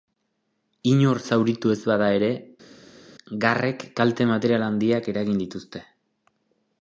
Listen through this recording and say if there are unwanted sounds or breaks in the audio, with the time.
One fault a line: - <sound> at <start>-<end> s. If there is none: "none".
none